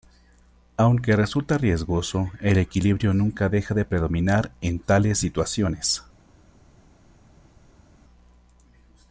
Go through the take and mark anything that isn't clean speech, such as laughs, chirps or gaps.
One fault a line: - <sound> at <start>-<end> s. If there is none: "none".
none